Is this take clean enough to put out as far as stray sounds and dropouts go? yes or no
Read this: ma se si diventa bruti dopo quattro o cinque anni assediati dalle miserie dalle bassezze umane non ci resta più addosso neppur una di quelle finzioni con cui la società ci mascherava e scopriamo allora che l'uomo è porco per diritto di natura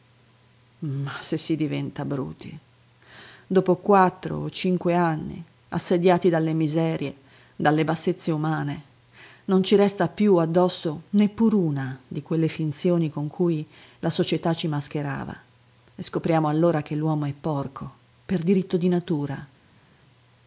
yes